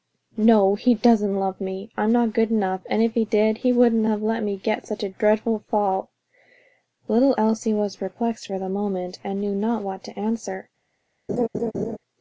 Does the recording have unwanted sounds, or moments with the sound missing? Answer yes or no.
yes